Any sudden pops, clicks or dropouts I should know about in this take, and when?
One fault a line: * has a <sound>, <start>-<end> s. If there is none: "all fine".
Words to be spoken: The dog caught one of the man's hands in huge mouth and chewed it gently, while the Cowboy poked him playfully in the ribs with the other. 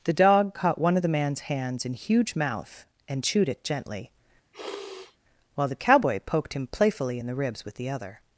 * has a sniff, 4.5-5.2 s